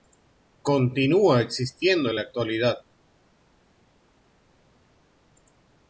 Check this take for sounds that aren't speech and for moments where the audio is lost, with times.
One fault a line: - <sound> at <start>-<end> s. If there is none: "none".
none